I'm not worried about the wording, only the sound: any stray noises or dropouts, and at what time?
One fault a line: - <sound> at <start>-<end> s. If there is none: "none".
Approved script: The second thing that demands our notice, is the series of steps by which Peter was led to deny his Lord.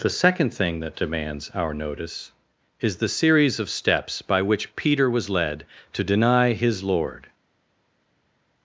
none